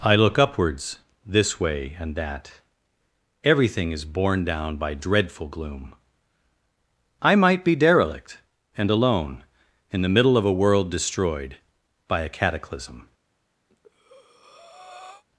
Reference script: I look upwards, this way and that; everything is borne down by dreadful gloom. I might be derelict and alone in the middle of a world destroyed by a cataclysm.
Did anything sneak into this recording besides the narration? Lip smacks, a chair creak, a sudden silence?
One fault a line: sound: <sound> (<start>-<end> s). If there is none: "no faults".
sound: breath (13.7-15.2 s)